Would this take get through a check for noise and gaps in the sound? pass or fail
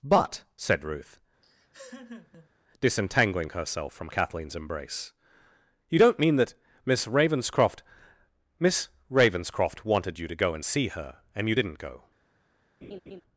fail